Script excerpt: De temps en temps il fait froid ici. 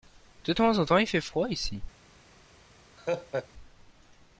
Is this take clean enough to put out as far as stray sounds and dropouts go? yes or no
no